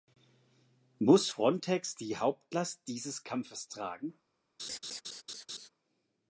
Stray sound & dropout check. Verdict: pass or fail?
fail